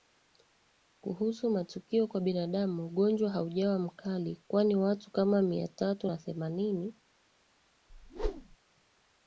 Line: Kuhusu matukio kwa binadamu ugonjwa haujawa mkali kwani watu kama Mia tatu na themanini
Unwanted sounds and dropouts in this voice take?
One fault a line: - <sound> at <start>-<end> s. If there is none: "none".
- whoosh at 7.9-8.6 s